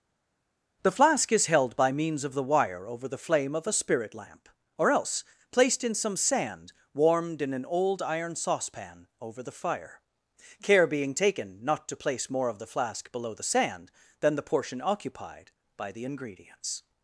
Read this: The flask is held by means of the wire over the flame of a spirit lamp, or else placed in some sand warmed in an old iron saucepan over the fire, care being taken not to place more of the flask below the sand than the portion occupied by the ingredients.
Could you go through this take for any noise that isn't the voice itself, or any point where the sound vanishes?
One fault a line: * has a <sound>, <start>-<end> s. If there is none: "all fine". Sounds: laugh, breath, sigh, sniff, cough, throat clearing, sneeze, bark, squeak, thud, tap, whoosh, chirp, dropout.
all fine